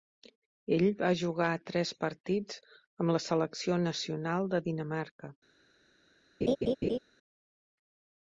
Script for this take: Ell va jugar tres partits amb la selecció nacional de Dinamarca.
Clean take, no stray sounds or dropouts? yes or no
no